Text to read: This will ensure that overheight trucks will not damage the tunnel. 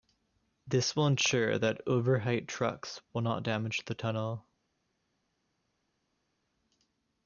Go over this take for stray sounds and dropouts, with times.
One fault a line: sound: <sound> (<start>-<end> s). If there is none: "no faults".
no faults